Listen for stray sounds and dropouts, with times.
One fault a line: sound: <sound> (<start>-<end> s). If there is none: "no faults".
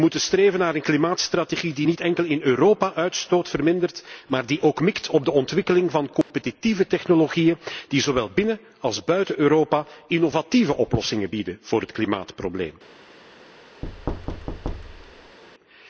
sound: dropout (6.2-6.3 s)
sound: thud (13.8-15.4 s)